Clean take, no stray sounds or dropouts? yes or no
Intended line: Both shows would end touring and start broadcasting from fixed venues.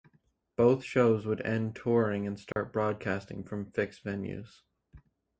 no